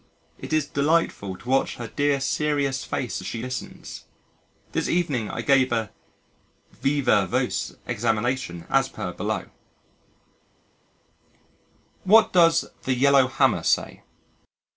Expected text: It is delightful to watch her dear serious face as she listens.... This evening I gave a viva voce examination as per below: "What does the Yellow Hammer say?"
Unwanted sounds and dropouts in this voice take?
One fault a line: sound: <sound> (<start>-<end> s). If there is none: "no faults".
no faults